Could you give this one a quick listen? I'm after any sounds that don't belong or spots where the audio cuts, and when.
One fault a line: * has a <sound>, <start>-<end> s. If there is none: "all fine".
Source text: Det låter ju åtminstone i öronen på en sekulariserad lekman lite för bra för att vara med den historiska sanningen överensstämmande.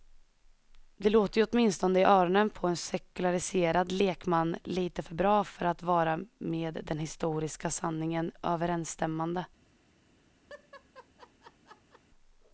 * has a laugh, 10.5-12.0 s